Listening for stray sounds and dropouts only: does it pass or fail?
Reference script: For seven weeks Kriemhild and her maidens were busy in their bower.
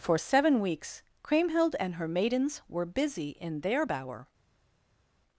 pass